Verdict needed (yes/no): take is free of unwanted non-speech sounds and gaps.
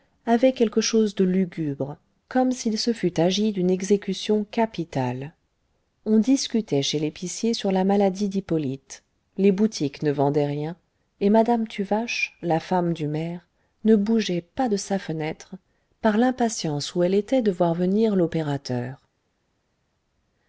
yes